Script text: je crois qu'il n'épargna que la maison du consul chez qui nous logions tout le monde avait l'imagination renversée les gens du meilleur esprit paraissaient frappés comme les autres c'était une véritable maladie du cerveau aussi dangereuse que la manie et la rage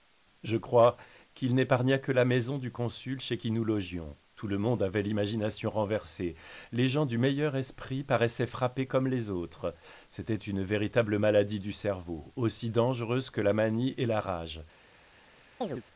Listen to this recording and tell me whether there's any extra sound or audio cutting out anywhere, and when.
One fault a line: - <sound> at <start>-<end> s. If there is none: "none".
- chirp at 15.6-15.8 s